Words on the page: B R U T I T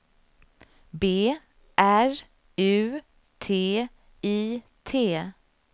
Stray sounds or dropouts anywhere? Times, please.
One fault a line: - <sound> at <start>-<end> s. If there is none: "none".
none